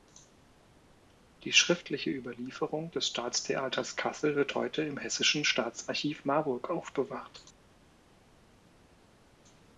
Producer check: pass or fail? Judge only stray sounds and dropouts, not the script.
pass